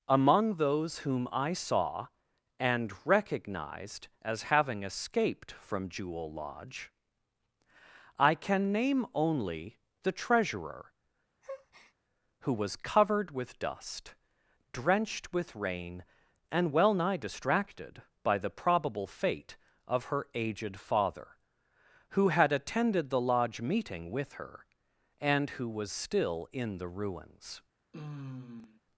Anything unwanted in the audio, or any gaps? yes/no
yes